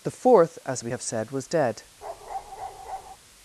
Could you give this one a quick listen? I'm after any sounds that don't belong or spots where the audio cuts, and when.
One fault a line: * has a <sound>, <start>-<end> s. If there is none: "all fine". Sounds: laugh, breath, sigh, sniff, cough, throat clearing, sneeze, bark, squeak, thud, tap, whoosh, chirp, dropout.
* has a bark, 2.0-3.2 s